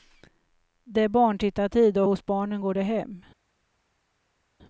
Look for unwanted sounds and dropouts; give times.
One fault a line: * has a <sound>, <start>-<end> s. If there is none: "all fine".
all fine